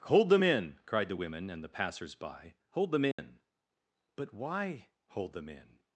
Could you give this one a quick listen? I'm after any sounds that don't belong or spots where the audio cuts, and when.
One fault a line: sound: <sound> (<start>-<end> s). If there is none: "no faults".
sound: dropout (3.1-3.2 s)